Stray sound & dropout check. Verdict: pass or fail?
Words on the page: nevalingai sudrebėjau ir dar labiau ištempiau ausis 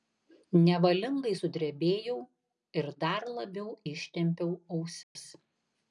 fail